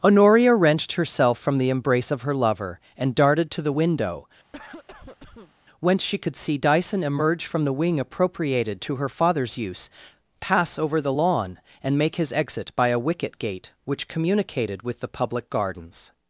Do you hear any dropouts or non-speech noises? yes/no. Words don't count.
yes